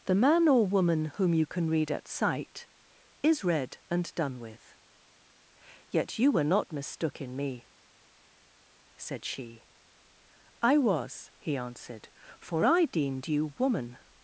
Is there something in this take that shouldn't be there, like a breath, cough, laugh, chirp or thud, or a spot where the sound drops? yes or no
no